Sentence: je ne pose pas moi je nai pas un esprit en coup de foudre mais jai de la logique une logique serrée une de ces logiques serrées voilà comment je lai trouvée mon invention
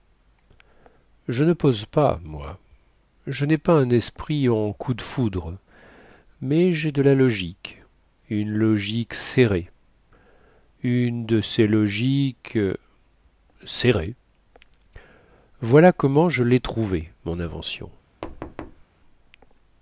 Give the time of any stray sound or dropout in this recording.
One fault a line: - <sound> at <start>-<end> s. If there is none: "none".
- thud at 18.2-18.8 s